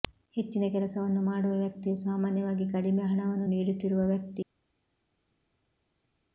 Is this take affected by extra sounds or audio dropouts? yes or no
no